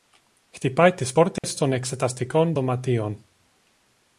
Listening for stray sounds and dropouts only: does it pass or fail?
fail